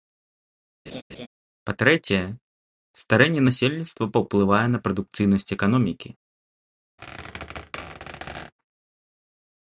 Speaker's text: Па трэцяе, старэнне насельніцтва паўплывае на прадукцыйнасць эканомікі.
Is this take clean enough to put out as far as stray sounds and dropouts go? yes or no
no